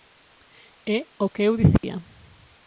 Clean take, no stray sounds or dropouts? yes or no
no